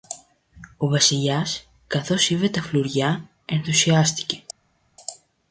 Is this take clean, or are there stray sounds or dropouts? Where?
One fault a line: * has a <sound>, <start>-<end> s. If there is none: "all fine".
all fine